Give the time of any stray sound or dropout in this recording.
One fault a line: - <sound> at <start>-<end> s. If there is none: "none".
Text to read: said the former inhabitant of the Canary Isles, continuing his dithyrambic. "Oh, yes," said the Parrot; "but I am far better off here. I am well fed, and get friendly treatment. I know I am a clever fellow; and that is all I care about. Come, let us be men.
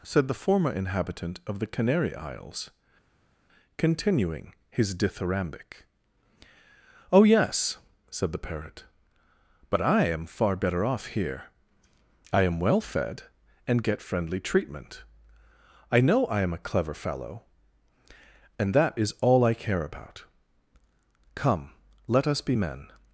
none